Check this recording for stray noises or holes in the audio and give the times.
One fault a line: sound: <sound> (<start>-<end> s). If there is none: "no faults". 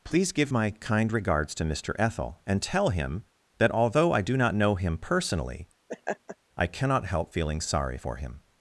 sound: laugh (5.9-6.4 s)